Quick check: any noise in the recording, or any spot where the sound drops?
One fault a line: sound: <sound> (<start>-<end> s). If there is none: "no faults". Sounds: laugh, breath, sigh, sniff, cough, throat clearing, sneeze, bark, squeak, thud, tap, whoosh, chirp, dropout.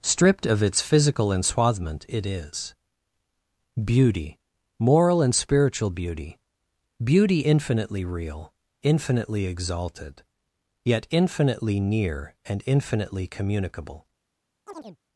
sound: chirp (14.7-15.0 s)